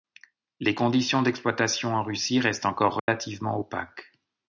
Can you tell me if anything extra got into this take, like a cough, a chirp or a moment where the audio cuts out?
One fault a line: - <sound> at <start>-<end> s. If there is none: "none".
- dropout at 3.0-3.1 s